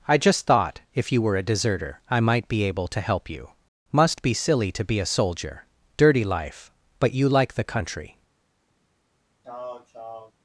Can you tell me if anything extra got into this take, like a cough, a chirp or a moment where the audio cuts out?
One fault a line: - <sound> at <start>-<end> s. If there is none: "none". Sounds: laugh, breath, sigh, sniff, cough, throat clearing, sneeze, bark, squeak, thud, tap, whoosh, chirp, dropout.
- throat clearing at 9.4-10.3 s